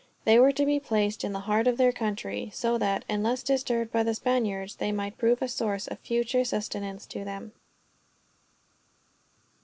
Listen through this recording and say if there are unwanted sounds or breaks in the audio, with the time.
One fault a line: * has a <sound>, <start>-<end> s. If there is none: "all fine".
all fine